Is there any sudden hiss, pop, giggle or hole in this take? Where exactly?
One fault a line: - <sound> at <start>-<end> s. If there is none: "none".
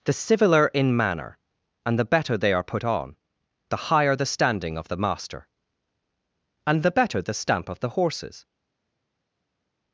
none